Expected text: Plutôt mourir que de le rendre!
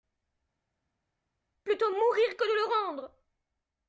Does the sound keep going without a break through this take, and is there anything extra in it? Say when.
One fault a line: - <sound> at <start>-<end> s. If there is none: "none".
none